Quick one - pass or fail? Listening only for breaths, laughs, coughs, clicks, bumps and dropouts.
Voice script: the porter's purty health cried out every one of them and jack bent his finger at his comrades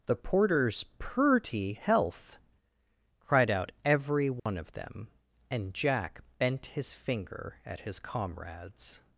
fail